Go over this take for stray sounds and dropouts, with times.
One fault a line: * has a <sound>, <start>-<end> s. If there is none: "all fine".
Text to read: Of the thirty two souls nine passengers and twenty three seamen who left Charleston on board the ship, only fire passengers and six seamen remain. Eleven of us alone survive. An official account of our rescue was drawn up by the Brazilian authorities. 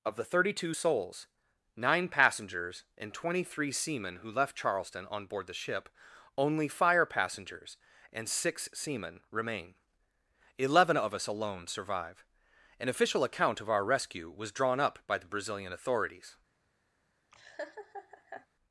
* has a laugh, 17.3-18.5 s